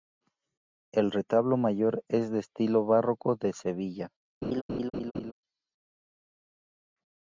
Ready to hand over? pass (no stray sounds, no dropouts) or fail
fail